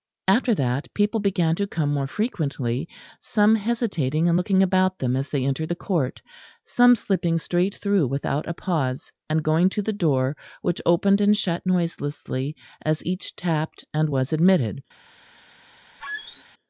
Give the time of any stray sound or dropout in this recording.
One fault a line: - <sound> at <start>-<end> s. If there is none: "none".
- squeak at 16.0-16.4 s